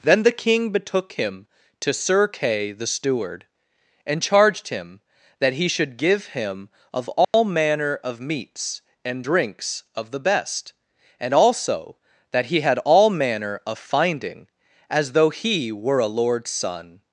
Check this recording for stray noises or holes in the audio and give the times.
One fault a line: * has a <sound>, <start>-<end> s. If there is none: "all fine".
* has a dropout, 7.2-7.3 s